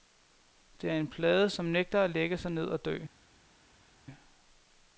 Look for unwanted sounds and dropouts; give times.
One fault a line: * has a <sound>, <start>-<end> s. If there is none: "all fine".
all fine